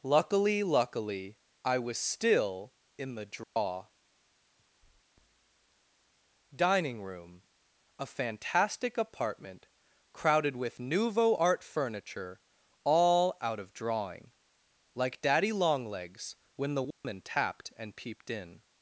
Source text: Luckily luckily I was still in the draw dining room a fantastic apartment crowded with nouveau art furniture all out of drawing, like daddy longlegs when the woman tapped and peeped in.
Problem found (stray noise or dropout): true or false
true